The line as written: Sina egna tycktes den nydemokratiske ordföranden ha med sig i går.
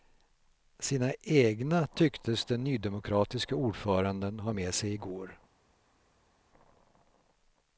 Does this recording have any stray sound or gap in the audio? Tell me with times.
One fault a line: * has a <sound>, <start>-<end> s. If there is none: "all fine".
all fine